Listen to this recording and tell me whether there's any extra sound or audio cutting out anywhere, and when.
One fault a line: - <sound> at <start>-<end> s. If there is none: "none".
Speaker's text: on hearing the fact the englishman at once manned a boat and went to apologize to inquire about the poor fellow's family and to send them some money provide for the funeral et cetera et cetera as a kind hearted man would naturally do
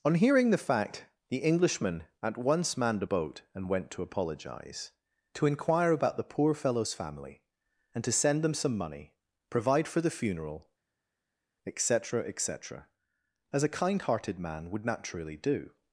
none